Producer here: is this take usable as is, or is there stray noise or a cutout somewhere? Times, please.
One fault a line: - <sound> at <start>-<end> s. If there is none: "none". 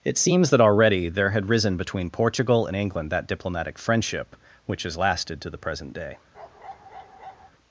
- bark at 6.3-7.5 s